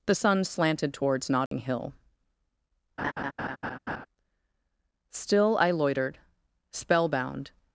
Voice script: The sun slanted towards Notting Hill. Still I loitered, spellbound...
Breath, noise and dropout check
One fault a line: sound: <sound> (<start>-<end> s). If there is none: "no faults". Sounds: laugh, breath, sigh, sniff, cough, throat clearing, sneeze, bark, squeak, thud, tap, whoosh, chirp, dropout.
sound: dropout (1.5-1.5 s)
sound: laugh (3.0-4.1 s)